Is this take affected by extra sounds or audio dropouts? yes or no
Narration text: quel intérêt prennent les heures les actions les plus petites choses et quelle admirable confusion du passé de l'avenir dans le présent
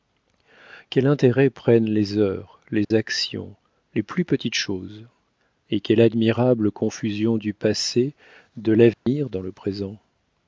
yes